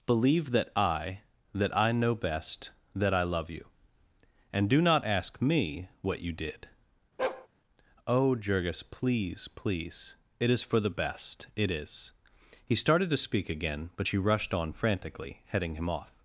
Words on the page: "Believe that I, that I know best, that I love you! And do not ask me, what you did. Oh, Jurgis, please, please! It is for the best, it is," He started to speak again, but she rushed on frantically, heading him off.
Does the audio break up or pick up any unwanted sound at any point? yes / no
yes